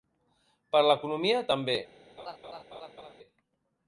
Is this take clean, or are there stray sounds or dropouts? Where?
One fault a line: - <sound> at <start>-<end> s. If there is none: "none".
- laugh at 2.2-3.1 s